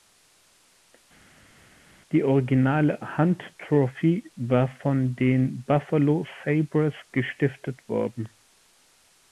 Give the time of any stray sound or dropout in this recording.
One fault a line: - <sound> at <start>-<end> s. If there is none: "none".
none